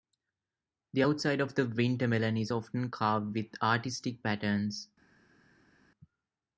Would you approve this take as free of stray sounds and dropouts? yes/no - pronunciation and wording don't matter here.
yes